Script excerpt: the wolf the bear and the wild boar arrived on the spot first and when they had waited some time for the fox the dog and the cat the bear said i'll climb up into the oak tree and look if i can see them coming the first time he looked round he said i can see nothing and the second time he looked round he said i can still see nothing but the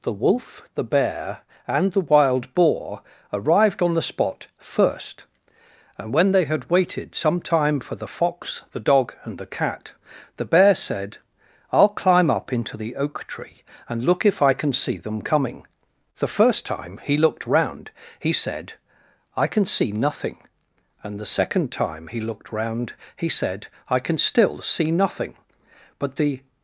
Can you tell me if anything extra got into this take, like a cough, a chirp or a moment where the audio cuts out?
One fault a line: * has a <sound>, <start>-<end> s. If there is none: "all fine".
all fine